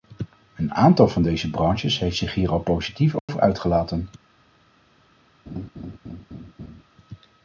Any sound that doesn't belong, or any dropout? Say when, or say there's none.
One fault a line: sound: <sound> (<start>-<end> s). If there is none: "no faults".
sound: dropout (3.2-3.3 s)
sound: laugh (5.5-6.8 s)